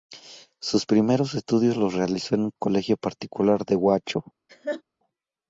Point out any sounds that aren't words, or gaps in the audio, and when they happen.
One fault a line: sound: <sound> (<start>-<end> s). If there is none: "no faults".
sound: laugh (4.5-4.8 s)